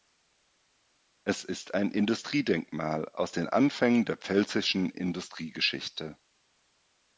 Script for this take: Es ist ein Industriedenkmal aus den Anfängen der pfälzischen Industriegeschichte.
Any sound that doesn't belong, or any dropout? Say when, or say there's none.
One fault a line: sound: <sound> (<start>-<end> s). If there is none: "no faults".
no faults